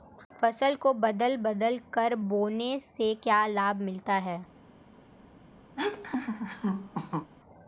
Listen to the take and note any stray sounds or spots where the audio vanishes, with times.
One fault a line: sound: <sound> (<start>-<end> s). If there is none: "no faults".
sound: laugh (5.8-7.3 s)